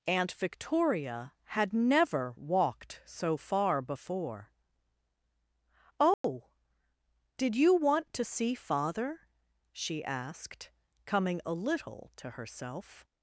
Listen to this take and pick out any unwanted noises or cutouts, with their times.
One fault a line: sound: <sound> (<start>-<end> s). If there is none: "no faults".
sound: dropout (6.1-6.2 s)